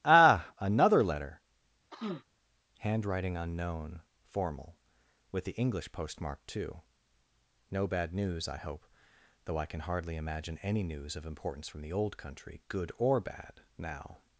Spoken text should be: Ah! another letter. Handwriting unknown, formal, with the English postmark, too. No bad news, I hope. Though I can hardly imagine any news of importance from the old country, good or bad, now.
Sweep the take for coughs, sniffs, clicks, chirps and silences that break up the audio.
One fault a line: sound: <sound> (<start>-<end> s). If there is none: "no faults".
sound: sniff (1.9-2.3 s)